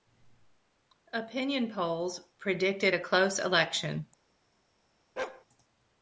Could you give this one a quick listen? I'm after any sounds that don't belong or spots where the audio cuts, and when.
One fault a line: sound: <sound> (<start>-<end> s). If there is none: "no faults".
sound: bark (5.2-5.4 s)